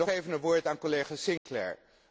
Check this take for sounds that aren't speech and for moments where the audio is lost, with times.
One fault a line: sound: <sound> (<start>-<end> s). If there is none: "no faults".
sound: dropout (1.4-1.5 s)